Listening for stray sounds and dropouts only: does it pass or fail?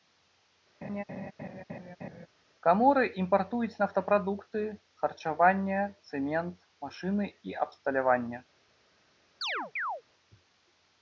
fail